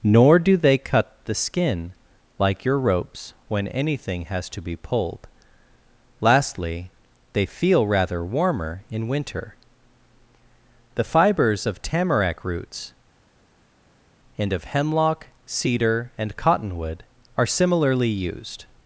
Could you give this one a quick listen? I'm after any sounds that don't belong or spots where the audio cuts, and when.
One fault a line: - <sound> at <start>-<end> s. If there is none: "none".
none